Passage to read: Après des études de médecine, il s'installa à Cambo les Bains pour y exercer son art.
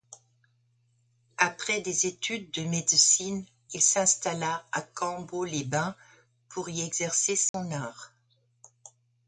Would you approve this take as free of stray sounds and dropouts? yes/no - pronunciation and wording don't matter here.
no